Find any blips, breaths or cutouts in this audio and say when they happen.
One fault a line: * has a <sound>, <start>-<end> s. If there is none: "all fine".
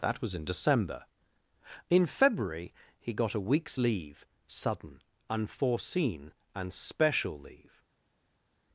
all fine